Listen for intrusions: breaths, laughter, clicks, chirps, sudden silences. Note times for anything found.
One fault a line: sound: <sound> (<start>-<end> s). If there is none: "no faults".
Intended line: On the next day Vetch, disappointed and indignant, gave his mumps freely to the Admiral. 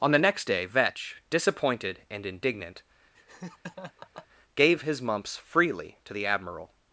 sound: laugh (3.1-4.3 s)